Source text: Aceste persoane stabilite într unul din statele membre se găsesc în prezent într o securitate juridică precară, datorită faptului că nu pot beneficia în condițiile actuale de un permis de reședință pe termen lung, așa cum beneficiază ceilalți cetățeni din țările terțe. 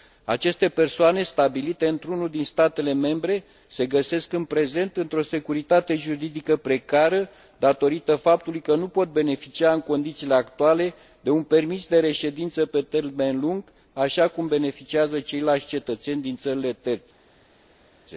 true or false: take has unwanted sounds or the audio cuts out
false